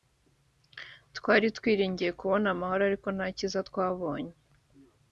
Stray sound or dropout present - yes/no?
no